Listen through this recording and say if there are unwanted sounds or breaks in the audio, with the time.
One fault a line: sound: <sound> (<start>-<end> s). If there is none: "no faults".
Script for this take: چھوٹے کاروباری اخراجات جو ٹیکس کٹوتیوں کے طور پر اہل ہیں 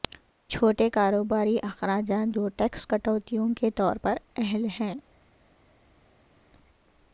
no faults